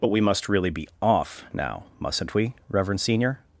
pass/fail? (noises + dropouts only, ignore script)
pass